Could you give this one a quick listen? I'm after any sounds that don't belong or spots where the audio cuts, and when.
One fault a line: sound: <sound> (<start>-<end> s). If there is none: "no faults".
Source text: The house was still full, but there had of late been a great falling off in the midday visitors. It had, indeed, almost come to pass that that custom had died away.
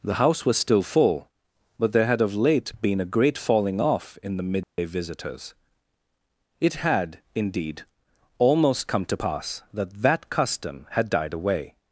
sound: dropout (4.6-4.8 s)